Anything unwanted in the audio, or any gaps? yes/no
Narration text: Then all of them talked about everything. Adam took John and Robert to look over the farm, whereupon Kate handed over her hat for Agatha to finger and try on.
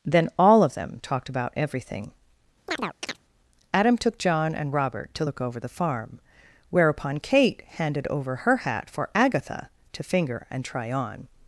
yes